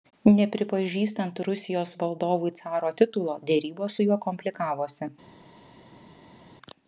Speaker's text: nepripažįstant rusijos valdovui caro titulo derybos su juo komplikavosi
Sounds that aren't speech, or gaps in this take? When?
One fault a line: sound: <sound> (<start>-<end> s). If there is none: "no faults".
no faults